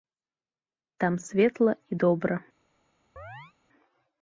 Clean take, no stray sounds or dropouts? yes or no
no